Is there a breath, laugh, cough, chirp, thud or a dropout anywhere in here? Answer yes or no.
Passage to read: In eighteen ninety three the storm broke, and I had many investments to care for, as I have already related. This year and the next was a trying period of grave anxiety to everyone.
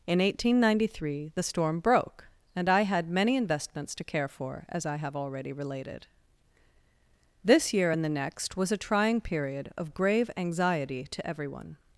no